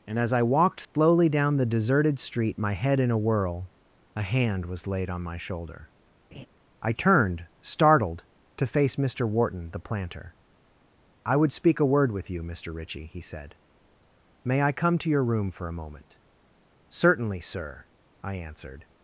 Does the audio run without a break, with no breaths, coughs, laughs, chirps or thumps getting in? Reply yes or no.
no